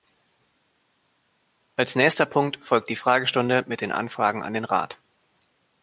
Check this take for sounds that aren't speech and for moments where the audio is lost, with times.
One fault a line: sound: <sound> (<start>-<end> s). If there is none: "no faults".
no faults